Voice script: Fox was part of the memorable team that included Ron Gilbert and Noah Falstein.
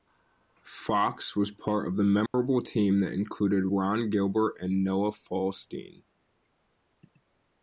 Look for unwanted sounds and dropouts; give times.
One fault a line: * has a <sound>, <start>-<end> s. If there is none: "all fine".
* has a dropout, 2.3-2.3 s